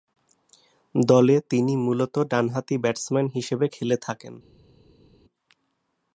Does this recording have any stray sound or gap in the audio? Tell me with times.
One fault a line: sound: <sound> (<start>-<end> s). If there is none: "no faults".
no faults